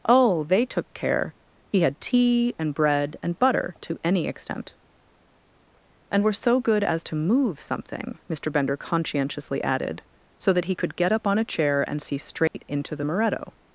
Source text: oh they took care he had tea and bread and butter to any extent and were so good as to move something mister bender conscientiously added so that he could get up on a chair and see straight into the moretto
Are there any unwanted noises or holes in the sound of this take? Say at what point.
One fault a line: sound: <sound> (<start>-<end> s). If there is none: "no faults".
sound: dropout (12.5-12.5 s)